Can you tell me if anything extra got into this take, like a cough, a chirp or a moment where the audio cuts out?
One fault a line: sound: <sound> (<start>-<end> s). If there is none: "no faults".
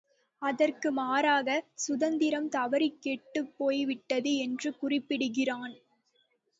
no faults